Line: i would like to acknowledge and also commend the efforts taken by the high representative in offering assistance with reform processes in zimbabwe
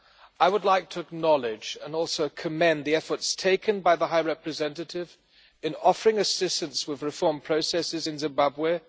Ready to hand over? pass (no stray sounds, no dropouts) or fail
pass